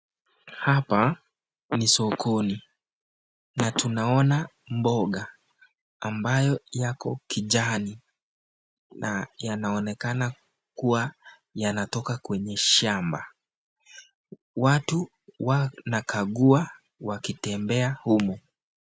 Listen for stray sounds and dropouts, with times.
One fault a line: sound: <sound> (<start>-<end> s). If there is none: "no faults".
no faults